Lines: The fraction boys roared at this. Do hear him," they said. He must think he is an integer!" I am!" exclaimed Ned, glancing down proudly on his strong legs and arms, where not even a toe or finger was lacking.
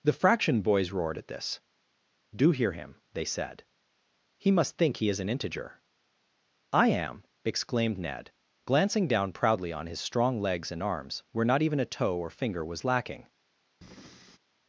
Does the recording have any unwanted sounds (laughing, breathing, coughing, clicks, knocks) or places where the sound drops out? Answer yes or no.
yes